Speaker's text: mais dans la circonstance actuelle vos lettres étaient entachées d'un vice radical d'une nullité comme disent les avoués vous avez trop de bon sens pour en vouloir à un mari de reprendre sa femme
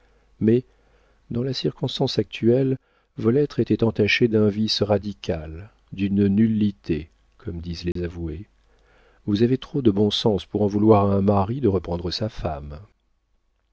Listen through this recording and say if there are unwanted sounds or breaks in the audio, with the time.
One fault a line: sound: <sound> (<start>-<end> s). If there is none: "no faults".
sound: dropout (7.9-8.0 s)